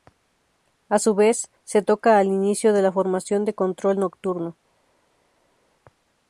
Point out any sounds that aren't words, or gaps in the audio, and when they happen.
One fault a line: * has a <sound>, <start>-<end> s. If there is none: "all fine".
all fine